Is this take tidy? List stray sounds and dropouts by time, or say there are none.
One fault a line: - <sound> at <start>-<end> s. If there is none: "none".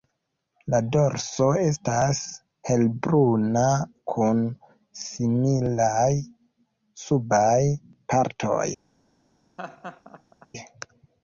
- laugh at 9.6-10.5 s